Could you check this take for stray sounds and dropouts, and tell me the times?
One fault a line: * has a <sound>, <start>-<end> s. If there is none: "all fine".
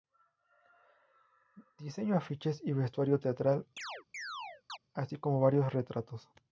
* has a chirp, 3.8-4.8 s